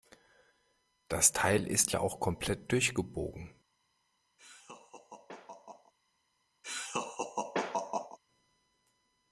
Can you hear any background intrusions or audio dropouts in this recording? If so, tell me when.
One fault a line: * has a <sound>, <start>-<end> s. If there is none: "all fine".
* has a laugh, 4.4-5.9 s
* has a laugh, 6.6-8.2 s